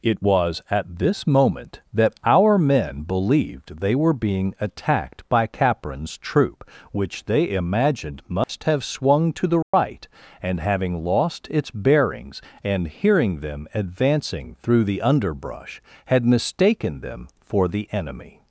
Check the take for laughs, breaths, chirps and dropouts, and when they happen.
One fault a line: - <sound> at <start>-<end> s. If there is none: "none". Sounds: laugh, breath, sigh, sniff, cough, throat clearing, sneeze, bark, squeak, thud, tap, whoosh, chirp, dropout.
- dropout at 8.4-8.5 s
- dropout at 9.6-9.7 s